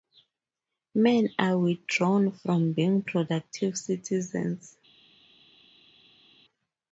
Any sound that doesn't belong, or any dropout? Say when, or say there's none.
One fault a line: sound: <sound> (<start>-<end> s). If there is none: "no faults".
no faults